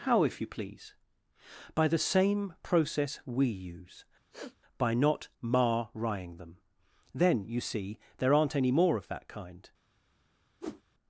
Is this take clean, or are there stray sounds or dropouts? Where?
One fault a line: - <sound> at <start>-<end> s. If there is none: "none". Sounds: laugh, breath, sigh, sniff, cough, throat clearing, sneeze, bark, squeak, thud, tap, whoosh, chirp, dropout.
- sniff at 4.3-4.6 s
- whoosh at 10.6-10.8 s